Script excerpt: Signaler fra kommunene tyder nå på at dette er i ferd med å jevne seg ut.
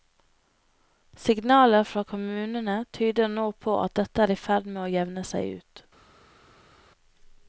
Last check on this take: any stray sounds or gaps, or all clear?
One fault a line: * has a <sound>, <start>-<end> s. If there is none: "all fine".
all fine